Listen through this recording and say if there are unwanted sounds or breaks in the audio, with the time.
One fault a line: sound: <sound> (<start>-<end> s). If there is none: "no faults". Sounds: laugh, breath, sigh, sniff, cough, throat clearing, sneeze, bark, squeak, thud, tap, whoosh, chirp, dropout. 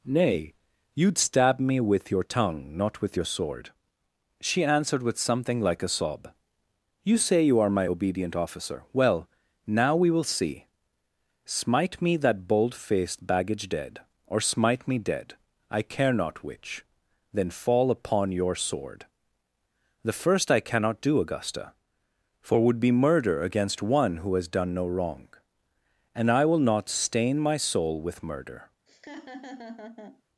sound: laugh (28.9-30.2 s)